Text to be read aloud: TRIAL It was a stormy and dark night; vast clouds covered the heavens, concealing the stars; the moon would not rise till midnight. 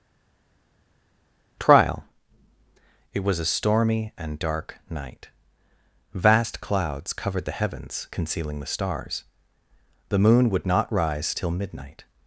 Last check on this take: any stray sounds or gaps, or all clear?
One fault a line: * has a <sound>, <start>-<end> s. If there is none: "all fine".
all fine